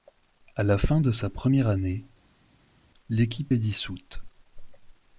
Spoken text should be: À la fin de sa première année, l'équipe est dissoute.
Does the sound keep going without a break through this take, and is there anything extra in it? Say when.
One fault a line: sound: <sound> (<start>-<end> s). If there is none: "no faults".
no faults